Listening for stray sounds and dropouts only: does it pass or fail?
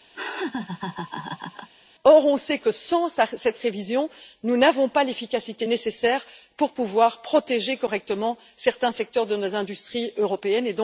fail